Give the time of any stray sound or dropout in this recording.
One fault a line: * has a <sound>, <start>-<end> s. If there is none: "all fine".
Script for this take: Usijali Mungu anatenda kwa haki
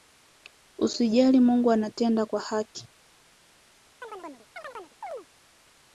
* has a chirp, 4.0-5.3 s